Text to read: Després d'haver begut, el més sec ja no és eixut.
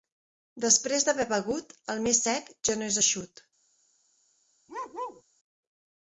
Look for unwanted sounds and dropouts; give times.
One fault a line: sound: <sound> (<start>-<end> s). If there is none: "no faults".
sound: bark (4.7-5.2 s)